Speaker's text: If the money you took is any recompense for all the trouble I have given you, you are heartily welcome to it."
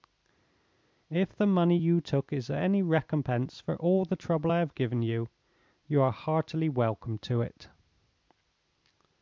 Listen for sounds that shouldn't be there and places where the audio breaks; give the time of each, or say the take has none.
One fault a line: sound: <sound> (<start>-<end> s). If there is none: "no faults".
no faults